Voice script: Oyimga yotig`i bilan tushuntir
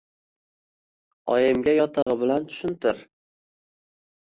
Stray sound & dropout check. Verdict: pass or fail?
fail